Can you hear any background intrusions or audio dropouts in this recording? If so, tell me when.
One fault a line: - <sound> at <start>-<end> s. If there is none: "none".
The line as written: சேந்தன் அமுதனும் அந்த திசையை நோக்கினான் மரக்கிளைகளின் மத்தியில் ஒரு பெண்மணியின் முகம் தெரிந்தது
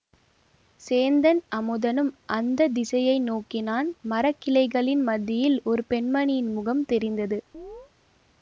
- chirp at 7.5-7.9 s